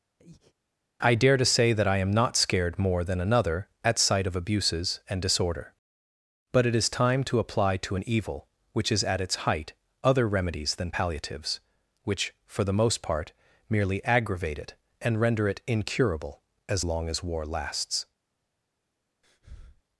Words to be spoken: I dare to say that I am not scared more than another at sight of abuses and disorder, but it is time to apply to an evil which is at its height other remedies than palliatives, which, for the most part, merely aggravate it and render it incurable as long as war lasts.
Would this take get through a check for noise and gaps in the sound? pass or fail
fail